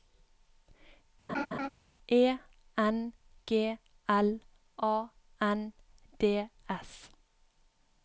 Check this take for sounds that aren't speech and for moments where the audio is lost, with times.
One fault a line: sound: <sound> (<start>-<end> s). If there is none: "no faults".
sound: laugh (1.3-1.7 s)